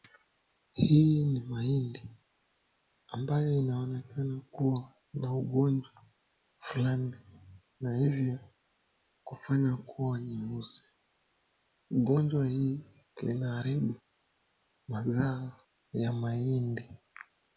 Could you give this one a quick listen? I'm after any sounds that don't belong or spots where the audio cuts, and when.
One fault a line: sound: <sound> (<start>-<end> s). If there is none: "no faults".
no faults